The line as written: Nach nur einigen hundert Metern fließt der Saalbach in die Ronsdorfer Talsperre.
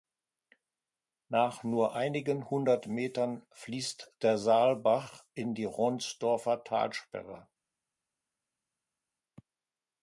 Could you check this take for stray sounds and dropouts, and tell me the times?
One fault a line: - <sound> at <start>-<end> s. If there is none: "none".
none